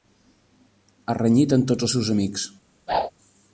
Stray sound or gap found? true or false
true